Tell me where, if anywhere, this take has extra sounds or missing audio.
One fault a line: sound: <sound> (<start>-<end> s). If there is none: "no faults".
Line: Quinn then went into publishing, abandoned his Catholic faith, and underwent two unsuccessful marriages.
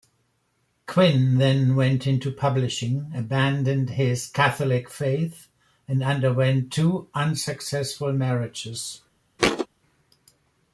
sound: thud (9.4-9.7 s)